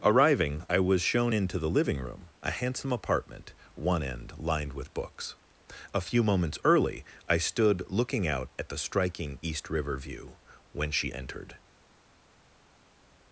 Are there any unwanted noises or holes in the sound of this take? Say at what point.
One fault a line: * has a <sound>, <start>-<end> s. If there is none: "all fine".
all fine